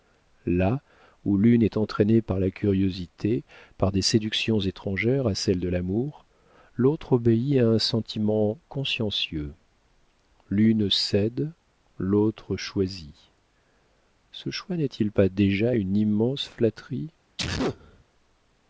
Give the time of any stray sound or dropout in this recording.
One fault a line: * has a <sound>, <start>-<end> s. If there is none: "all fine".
* has a sneeze, 17.4-18.0 s